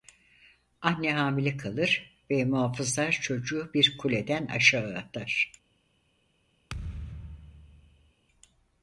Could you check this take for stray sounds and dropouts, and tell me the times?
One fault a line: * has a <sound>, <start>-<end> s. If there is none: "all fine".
* has a thud, 6.7-8.1 s